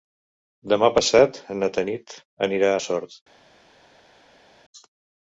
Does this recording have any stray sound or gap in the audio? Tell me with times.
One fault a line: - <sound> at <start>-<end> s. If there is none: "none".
none